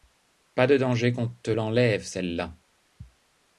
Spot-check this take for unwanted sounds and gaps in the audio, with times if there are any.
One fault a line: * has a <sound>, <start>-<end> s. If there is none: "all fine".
all fine